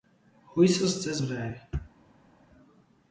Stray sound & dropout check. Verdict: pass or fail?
pass